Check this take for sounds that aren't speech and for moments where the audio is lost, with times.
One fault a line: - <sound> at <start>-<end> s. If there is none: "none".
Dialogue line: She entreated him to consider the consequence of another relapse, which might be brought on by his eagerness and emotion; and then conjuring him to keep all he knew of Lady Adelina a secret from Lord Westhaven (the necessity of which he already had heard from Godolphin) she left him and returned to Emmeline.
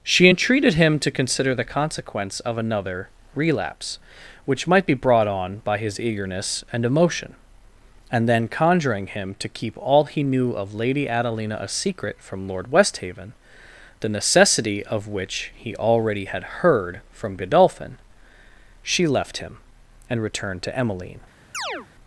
- chirp at 21.5-21.9 s